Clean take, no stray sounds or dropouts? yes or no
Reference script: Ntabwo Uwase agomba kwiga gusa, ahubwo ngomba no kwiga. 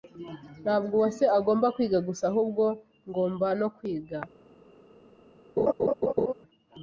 no